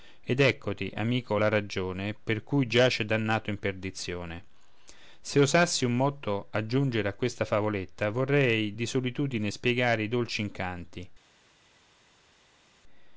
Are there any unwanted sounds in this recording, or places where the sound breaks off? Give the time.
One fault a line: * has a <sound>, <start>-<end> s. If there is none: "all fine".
all fine